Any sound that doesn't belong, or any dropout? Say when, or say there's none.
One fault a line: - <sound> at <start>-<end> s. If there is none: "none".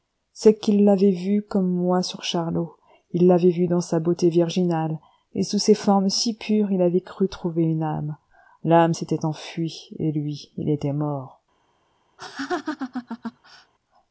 - laugh at 12.2-13.7 s